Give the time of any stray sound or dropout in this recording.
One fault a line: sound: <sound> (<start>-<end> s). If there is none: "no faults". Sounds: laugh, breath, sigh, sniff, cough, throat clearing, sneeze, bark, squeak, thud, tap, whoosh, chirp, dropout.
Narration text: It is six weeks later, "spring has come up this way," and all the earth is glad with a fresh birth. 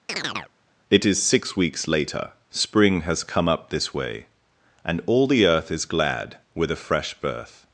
sound: chirp (0.1-0.5 s)